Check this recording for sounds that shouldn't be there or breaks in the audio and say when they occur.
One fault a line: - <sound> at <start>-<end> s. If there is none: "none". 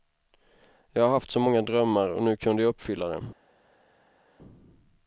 none